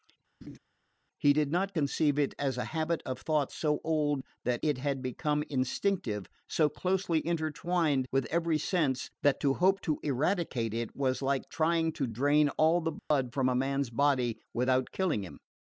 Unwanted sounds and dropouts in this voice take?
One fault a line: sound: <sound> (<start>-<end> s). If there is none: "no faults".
sound: laugh (0.4-0.6 s)
sound: dropout (13.0-13.1 s)